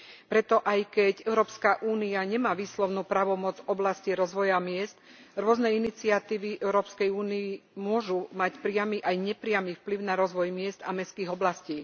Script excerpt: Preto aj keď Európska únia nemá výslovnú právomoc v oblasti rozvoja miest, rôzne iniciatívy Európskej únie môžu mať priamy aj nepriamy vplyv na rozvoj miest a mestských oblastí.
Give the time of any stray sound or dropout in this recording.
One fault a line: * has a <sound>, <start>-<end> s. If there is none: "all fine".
all fine